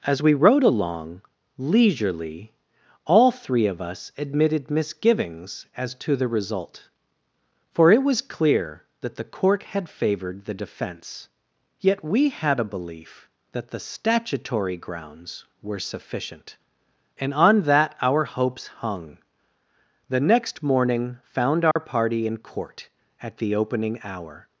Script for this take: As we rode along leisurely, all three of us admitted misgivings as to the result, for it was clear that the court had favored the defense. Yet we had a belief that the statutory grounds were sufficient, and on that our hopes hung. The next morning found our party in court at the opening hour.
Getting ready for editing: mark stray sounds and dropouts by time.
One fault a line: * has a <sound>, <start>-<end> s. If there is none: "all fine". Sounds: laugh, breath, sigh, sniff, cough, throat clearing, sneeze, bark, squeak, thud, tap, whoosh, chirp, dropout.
* has a dropout, 21.7-21.8 s